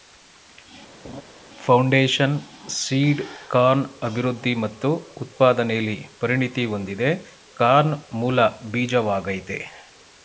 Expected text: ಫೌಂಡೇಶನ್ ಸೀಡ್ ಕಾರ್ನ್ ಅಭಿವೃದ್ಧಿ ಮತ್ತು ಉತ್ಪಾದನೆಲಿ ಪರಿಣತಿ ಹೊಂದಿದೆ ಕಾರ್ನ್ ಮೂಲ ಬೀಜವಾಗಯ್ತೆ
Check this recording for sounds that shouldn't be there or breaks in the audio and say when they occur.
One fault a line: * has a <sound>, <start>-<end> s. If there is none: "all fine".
* has a laugh, 1.0-1.2 s